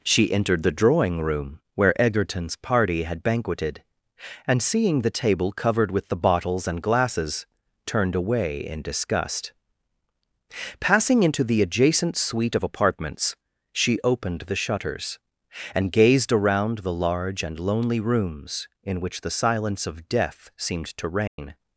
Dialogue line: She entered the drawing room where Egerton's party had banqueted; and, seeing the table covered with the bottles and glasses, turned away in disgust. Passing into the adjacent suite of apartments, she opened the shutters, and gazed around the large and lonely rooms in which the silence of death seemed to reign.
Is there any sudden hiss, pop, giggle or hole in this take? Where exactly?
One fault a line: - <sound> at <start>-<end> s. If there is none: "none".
- dropout at 21.3-21.4 s